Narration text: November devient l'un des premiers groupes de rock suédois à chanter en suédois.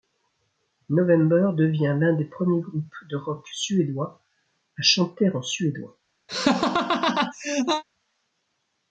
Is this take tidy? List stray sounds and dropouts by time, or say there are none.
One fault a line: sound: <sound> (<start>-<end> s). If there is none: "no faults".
sound: laugh (6.3-7.8 s)